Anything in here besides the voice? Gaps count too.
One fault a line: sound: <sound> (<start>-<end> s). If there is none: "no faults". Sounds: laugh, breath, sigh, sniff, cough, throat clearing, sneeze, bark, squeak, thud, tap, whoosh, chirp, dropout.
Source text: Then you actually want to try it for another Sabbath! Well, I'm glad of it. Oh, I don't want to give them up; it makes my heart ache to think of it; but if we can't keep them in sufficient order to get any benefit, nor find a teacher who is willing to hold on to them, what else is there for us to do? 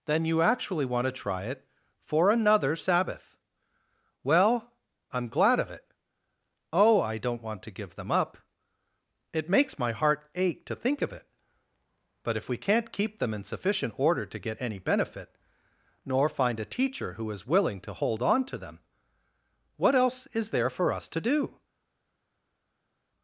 no faults